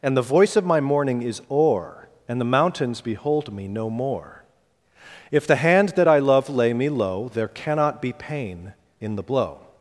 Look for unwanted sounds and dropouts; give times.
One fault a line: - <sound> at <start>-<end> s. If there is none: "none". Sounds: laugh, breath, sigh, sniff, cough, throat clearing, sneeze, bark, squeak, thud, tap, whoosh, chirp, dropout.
none